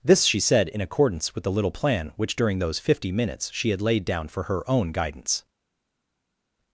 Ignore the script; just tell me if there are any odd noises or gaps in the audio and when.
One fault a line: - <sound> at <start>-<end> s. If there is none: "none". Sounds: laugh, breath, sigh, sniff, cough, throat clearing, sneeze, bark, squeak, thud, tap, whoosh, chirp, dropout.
none